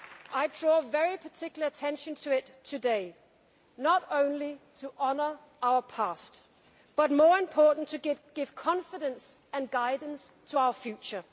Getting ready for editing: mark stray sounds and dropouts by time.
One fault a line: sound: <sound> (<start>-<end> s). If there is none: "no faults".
no faults